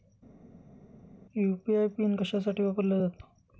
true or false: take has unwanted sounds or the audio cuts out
false